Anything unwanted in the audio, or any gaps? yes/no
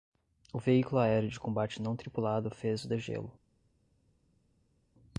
no